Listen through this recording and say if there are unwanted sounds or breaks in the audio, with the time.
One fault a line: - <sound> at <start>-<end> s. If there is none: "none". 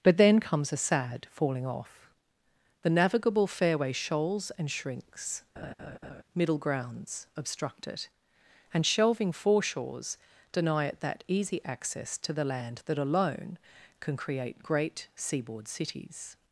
- laugh at 5.6-6.2 s